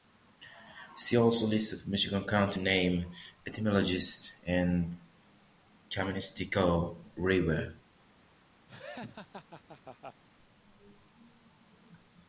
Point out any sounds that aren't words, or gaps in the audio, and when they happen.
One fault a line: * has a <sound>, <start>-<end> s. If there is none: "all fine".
* has a laugh, 8.7-10.2 s